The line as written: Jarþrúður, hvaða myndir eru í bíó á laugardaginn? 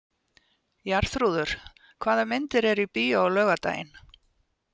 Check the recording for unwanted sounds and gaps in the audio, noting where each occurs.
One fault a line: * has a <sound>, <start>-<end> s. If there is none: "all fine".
all fine